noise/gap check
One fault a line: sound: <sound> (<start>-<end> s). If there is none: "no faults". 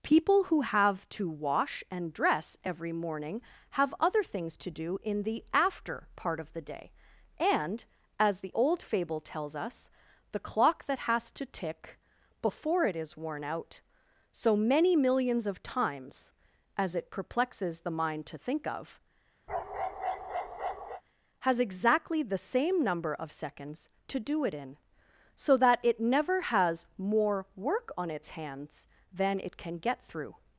sound: bark (19.5-21.0 s)